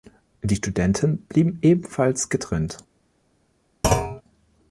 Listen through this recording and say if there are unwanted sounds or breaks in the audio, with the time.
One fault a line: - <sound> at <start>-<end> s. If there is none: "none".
- thud at 3.8-4.2 s